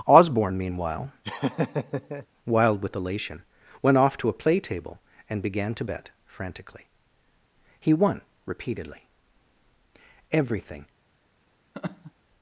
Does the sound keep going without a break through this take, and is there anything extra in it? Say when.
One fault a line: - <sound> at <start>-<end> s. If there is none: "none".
- laugh at 1.2-2.3 s
- laugh at 11.7-12.1 s